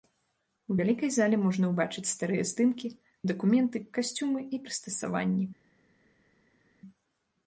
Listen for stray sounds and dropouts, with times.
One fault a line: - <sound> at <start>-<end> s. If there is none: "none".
none